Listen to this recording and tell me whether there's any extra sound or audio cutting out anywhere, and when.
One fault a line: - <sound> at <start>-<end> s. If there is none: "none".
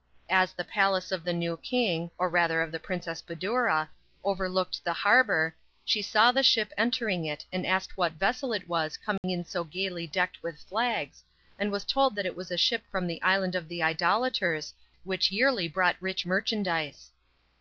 - dropout at 9.2-9.2 s